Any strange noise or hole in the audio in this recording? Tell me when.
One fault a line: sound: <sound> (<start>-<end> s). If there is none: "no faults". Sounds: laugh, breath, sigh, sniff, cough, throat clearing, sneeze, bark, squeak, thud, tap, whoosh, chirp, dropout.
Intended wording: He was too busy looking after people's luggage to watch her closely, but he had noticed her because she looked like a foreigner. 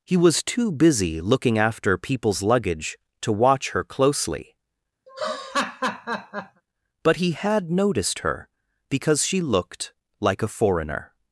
sound: laugh (5.1-6.6 s)